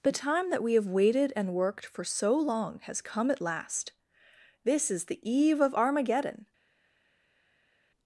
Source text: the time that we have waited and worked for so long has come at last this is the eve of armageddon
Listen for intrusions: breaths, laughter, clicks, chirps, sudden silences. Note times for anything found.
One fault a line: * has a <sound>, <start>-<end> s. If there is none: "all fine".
all fine